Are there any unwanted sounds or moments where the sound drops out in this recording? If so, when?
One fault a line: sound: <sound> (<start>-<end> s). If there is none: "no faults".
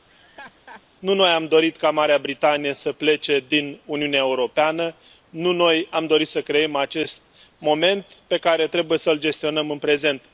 sound: laugh (0.1-0.8 s)